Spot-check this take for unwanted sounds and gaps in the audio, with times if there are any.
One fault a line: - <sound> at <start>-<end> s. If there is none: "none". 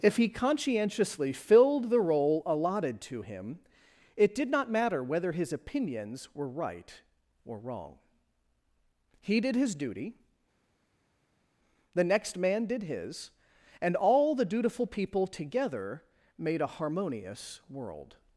none